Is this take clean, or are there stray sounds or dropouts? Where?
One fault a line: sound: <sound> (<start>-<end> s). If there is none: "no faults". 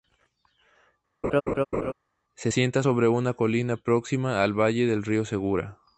sound: laugh (1.2-1.9 s)